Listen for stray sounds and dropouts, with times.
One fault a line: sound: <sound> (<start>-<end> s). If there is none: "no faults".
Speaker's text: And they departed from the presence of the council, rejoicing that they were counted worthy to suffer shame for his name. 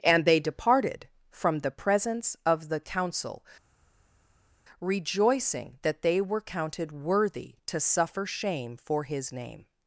no faults